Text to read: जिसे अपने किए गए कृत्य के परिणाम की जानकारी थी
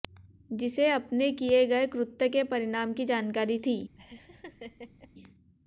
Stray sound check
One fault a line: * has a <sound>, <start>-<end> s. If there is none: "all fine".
* has a laugh, 4.0-5.1 s